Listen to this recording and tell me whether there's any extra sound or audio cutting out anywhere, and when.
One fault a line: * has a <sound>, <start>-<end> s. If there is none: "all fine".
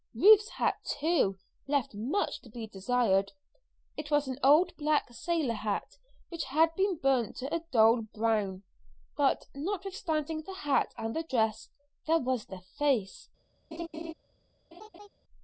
* has a laugh, 13.7-14.1 s
* has a laugh, 14.7-15.1 s